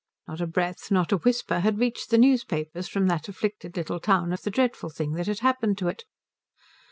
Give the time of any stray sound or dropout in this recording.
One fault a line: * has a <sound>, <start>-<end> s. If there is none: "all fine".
all fine